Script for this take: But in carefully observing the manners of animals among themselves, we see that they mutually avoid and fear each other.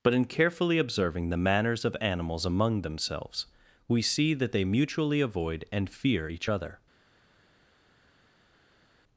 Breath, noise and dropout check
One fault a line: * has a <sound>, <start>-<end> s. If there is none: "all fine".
all fine